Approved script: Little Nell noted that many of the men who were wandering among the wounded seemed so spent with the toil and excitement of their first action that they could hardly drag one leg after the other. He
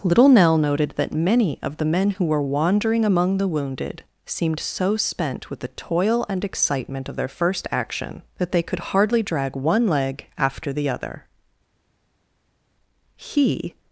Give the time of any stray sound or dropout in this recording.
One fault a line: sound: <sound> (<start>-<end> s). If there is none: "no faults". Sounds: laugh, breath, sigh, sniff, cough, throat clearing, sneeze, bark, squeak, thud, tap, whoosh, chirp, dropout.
no faults